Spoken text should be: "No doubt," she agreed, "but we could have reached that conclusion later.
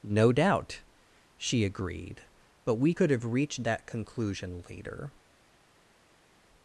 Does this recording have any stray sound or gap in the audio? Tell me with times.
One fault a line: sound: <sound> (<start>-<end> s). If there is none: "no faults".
no faults